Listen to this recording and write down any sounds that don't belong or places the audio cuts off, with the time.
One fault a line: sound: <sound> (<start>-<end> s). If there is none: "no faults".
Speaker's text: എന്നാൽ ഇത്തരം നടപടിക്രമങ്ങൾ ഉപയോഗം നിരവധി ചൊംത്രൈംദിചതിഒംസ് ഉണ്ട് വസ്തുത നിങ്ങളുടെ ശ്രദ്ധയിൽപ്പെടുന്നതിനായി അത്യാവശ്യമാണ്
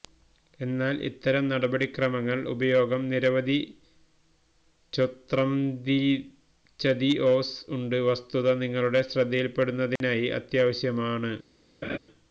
sound: dropout (10.0-10.0 s)
sound: laugh (11.8-12.0 s)